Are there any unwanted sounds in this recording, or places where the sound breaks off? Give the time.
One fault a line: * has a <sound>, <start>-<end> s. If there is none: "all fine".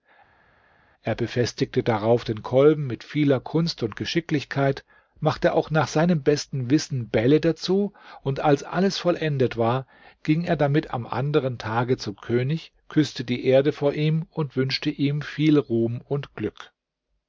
all fine